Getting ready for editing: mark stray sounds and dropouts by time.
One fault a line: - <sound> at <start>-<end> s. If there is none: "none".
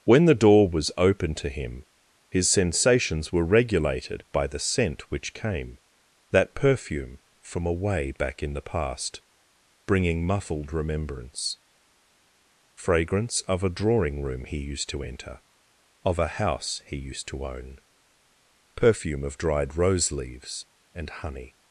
none